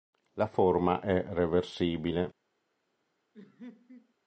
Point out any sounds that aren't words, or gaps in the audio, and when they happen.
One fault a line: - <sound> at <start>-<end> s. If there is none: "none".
- laugh at 3.3-4.1 s